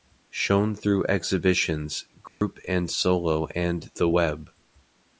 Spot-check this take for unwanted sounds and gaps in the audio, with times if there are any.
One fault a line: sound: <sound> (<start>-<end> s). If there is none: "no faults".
sound: dropout (2.3-2.4 s)